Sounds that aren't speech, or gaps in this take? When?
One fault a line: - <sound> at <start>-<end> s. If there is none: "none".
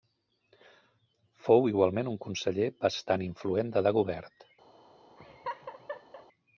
- laugh at 5.2-6.3 s